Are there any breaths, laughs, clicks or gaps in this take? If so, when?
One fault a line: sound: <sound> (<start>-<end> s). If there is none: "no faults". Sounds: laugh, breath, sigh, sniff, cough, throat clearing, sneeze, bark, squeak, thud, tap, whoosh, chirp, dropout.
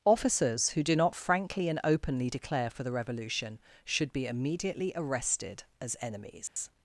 sound: dropout (6.5-6.6 s)